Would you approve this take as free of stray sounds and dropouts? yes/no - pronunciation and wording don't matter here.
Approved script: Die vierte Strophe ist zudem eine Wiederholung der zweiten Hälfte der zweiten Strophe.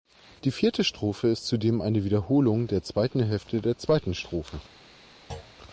no